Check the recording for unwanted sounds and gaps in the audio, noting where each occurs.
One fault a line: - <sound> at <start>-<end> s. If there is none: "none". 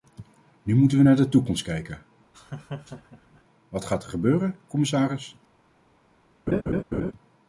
- laugh at 2.3-3.4 s
- laugh at 6.5-7.1 s